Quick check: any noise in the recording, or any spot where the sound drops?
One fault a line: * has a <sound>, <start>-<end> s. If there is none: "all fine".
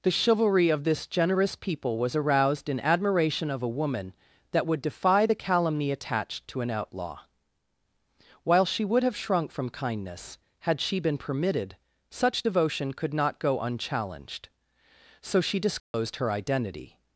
* has a dropout, 15.8-15.9 s